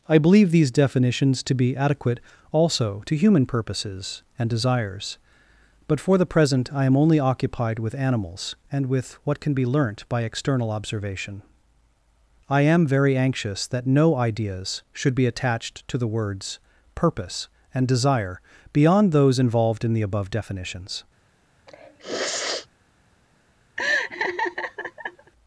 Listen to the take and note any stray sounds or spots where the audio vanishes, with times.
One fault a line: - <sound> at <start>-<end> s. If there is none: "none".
- sniff at 21.7-22.7 s
- laugh at 23.8-25.3 s